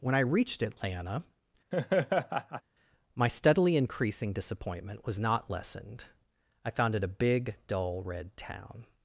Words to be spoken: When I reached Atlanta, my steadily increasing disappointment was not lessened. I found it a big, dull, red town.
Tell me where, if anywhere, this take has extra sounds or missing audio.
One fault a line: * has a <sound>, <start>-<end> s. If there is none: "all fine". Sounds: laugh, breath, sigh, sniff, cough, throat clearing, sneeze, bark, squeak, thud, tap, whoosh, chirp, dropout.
* has a laugh, 1.7-2.6 s